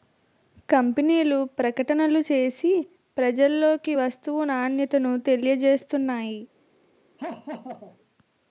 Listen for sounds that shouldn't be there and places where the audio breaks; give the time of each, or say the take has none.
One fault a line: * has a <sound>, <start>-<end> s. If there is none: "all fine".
* has a laugh, 7.2-8.0 s